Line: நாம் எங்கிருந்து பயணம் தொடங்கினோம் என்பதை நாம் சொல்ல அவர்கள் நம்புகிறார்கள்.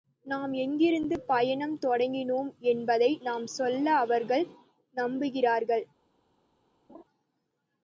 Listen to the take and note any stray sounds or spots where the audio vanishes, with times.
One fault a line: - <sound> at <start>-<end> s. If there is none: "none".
- laugh at 6.9-7.0 s